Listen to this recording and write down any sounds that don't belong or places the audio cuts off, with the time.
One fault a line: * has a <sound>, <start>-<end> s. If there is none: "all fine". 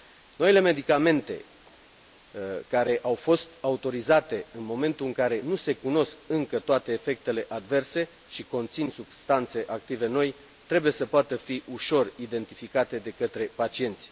all fine